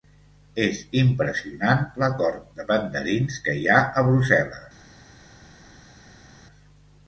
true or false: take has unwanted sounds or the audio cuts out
false